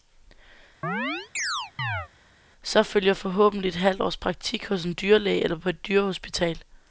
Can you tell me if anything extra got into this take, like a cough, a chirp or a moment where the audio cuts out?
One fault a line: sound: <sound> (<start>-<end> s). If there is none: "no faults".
sound: chirp (0.8-2.1 s)